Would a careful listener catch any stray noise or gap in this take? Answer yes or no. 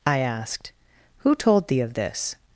no